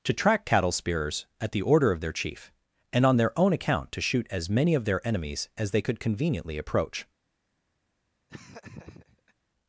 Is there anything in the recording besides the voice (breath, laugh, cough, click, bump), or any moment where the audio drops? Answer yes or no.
yes